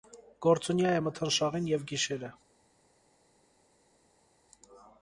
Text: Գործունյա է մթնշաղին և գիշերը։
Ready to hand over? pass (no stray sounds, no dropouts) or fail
pass